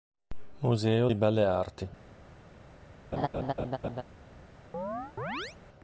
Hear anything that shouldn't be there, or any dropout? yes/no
yes